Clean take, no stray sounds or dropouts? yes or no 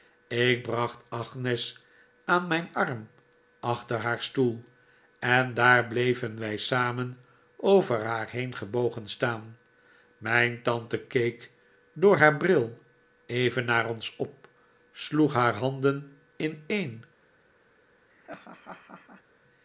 no